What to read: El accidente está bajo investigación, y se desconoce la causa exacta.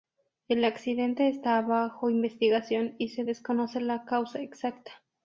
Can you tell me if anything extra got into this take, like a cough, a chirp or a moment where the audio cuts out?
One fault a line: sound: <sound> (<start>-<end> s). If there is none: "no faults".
no faults